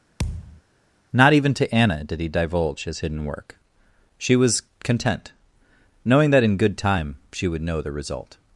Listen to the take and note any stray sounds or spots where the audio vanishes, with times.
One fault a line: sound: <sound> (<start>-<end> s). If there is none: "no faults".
sound: thud (0.2-0.6 s)